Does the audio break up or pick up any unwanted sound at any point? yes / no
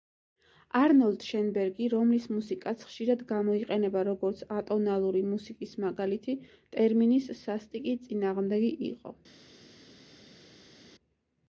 no